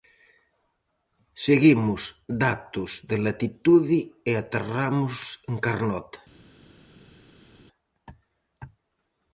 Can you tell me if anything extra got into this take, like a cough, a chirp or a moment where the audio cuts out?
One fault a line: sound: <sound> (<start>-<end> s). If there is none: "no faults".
no faults